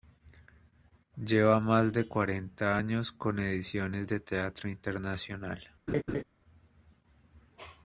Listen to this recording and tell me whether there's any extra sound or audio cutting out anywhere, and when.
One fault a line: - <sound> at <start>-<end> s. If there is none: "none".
- laugh at 5.9-6.2 s